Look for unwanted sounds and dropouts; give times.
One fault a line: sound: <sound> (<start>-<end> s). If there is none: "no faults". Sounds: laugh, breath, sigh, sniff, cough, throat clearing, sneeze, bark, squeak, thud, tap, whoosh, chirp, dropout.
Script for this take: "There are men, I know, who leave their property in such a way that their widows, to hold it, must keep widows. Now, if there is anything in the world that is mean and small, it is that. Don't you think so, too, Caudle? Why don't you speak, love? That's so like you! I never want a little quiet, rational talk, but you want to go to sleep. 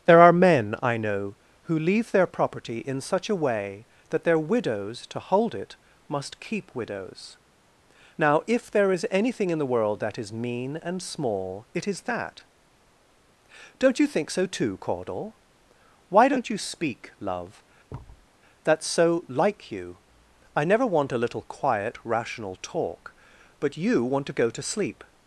sound: thud (17.9-18.3 s)